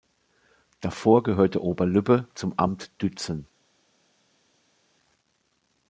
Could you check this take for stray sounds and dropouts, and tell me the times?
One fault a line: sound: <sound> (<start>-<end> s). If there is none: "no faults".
no faults